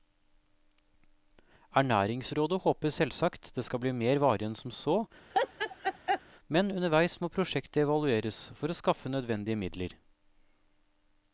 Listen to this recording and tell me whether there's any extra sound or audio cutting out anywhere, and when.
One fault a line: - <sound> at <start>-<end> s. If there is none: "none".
- laugh at 5.3-6.2 s